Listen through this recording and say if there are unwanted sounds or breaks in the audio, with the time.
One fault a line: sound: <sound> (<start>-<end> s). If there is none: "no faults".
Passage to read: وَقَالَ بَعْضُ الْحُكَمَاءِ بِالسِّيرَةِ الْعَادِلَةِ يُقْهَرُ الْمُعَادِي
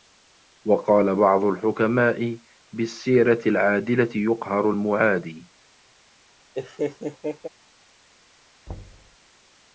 sound: laugh (6.5-7.5 s)
sound: thud (8.7-9.2 s)